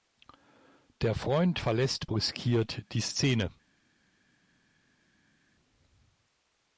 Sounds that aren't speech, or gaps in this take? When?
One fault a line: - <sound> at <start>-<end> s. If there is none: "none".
none